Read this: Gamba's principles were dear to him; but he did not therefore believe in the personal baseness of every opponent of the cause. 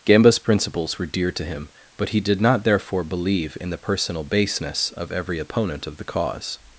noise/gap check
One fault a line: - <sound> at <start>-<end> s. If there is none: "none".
none